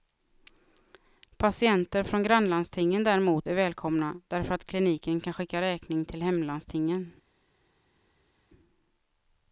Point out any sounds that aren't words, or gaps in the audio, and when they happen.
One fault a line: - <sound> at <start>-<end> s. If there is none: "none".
none